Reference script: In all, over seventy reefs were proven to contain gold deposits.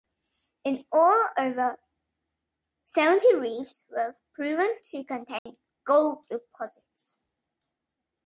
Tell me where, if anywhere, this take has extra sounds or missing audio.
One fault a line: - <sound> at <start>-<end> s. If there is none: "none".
- dropout at 5.4-5.5 s